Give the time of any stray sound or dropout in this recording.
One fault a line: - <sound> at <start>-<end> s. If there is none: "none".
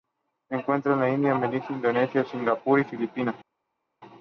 none